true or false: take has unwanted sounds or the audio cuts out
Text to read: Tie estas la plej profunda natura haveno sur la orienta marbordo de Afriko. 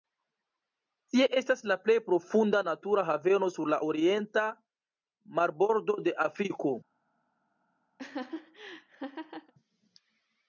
true